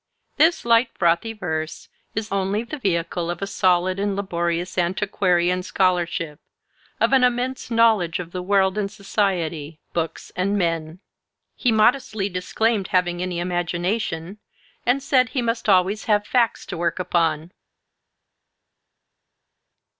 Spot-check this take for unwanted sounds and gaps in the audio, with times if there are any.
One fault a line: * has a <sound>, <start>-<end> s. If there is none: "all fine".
all fine